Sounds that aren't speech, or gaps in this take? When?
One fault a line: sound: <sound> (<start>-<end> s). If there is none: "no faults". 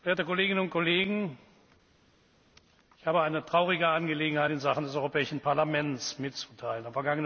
no faults